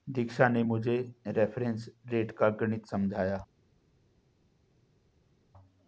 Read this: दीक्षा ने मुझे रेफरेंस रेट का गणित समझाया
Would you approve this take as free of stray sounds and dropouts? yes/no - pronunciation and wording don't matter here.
yes